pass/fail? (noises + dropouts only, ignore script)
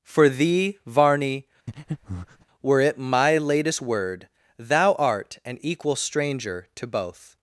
fail